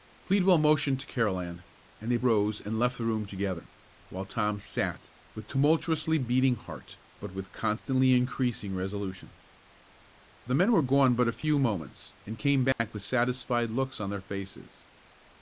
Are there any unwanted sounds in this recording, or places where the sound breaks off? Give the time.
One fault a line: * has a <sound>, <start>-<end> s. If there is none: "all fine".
* has a dropout, 12.7-12.8 s